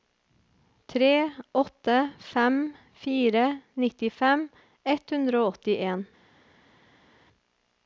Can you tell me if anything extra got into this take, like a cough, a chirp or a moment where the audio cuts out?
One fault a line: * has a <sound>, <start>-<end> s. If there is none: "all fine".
all fine